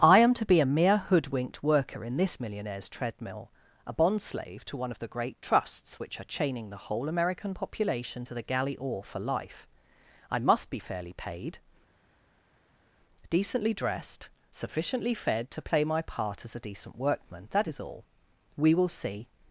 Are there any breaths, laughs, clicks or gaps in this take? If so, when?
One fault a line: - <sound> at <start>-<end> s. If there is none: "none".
none